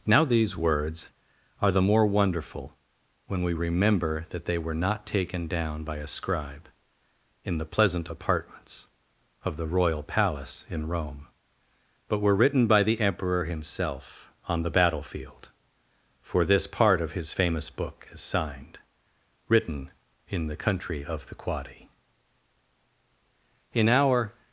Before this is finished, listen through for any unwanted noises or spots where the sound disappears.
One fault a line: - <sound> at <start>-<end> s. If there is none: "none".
none